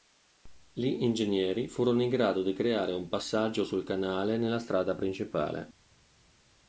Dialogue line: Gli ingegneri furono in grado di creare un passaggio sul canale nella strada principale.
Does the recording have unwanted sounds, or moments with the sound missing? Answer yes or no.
no